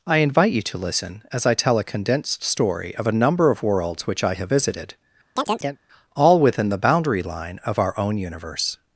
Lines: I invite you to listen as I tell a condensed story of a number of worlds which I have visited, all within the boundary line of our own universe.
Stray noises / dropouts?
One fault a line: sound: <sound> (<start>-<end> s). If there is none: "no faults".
sound: chirp (5.4-5.8 s)